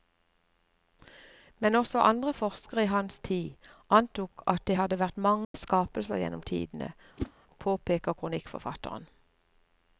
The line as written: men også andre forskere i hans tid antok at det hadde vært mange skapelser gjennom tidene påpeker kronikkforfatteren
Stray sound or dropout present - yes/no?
yes